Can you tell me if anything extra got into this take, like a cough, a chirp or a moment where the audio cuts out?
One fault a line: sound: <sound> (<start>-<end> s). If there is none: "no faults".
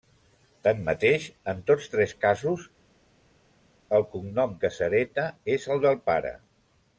no faults